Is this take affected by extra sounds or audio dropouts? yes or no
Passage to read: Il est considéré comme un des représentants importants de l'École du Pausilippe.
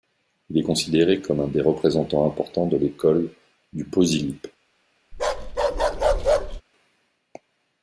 yes